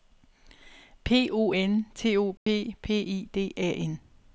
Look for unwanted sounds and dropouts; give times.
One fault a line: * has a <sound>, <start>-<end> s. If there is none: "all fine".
* has a dropout, 2.4-2.5 s